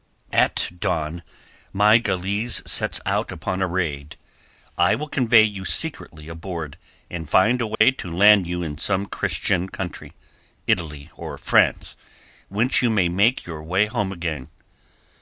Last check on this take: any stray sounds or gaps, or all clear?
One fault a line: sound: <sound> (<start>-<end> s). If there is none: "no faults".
sound: dropout (7.7-7.8 s)